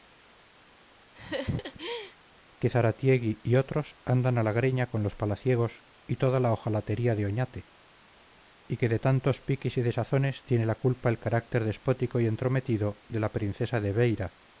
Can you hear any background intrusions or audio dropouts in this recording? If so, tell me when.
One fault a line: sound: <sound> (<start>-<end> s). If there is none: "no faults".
sound: laugh (1.1-2.2 s)